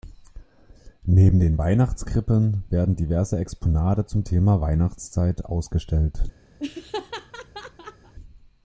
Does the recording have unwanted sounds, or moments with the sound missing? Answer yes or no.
yes